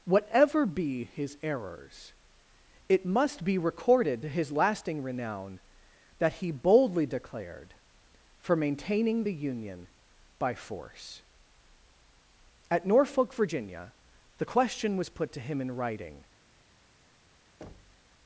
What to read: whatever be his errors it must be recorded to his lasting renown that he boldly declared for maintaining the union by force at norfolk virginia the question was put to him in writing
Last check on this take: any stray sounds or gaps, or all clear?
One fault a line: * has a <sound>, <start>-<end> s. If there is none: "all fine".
* has a thud, 17.6-18.1 s